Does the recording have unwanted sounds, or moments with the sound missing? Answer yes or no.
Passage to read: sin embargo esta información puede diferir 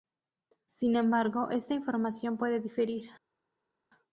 no